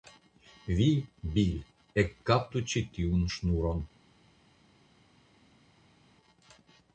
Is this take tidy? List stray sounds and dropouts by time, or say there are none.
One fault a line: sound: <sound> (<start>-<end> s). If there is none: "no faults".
no faults